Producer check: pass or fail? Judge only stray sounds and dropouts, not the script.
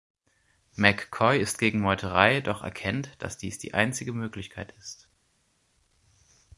pass